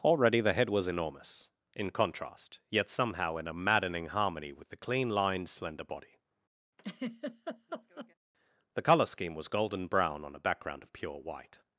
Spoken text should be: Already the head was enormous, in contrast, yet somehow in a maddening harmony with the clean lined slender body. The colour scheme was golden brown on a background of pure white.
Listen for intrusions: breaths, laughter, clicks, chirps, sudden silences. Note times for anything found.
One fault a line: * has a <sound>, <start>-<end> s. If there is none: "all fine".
* has a laugh, 6.8-8.1 s